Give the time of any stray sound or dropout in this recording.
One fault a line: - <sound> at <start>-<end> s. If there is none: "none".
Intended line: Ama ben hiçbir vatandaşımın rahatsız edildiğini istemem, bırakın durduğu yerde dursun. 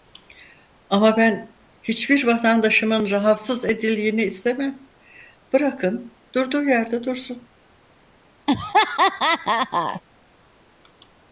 - laugh at 8.5-10.0 s